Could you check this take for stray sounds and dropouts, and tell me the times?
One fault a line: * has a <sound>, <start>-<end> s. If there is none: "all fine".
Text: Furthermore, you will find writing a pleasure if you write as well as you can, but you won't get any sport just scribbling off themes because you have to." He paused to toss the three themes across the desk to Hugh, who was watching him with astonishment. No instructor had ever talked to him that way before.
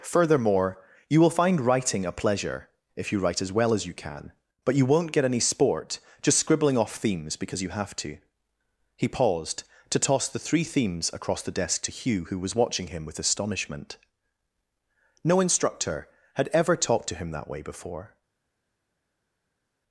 all fine